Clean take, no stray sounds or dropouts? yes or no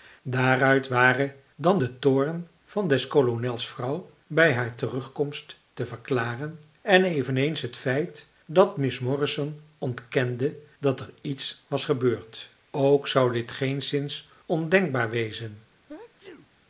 no